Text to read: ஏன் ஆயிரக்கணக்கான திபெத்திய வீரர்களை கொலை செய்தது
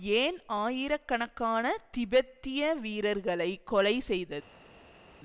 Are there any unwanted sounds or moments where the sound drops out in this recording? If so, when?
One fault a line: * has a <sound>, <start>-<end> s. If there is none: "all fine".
all fine